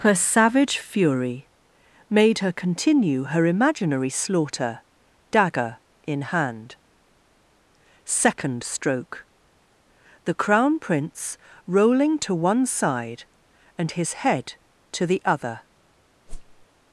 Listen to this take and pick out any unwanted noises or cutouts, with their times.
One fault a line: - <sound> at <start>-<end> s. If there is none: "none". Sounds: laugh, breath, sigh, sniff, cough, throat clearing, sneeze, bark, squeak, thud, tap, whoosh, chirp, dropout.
- whoosh at 16.3-16.7 s